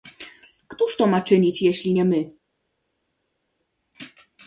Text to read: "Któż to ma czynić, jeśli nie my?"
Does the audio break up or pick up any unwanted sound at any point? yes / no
no